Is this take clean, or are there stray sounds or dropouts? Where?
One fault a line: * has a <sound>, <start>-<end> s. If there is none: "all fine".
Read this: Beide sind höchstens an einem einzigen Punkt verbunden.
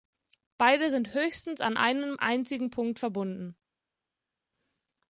all fine